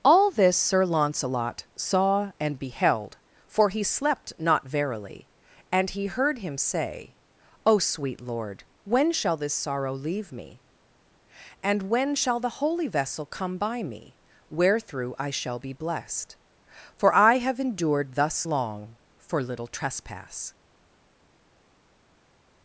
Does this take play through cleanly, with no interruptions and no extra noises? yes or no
yes